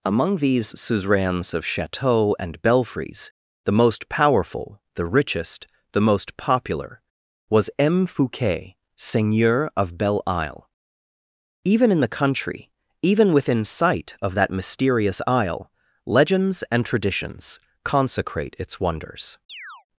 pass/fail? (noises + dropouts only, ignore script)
fail